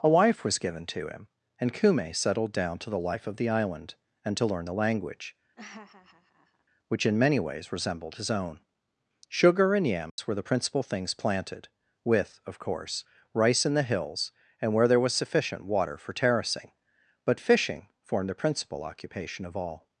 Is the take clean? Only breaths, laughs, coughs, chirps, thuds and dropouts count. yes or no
no